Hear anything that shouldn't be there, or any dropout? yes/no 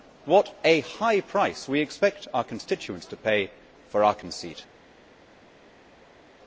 no